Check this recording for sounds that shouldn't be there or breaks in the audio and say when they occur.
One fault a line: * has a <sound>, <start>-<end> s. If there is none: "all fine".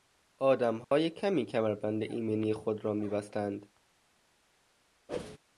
* has a dropout, 0.8-0.9 s
* has a whoosh, 5.1-5.4 s